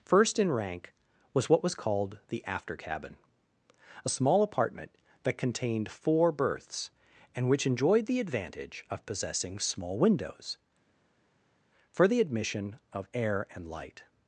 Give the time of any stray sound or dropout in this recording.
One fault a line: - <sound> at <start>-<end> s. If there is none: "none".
none